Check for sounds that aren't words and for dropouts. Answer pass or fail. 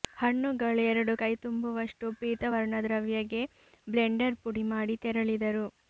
pass